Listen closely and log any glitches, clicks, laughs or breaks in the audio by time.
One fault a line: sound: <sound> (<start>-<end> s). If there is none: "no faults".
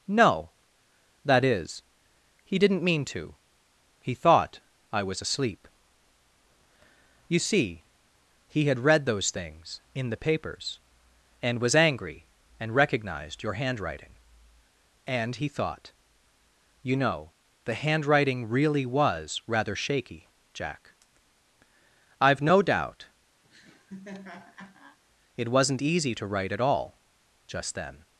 sound: laugh (23.4-25.0 s)